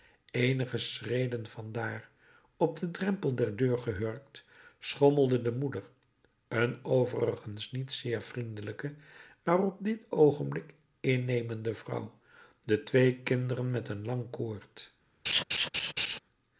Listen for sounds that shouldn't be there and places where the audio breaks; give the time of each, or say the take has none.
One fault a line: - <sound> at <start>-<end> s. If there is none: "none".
- laugh at 15.3-16.2 s